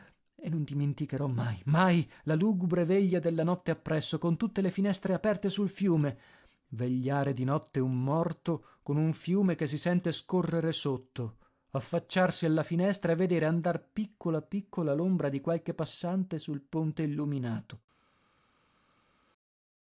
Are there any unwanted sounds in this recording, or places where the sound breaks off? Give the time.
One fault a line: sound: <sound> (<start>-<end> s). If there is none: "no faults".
no faults